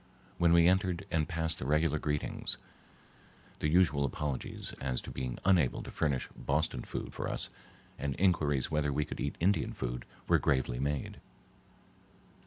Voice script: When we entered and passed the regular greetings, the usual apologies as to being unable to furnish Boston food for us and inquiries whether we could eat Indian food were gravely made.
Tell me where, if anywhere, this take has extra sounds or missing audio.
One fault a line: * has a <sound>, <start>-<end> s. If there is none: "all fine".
all fine